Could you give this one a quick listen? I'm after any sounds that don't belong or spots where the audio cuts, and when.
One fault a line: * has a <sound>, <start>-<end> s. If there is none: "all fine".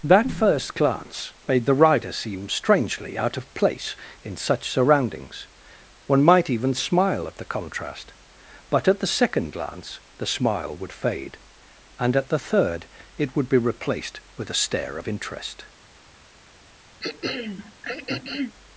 * has a throat clearing, 17.0-18.6 s